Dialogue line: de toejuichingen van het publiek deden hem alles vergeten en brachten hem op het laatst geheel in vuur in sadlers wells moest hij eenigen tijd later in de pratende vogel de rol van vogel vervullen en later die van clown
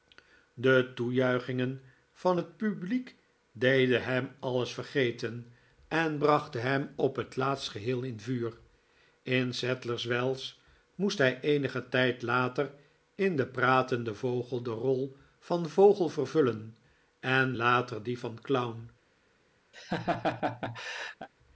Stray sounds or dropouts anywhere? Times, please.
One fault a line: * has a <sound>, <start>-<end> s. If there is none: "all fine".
* has a laugh, 19.7-21.3 s